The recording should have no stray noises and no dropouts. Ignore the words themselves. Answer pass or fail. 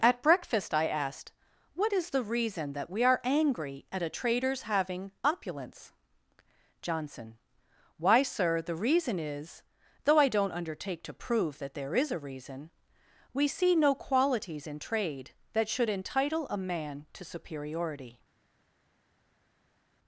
pass